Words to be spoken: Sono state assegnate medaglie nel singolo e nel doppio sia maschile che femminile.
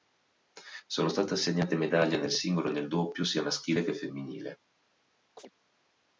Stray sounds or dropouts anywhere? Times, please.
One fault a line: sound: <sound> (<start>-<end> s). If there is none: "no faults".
sound: chirp (5.4-5.5 s)